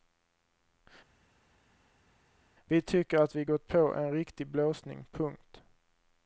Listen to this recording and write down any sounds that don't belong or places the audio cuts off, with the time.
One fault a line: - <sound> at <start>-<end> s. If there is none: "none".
none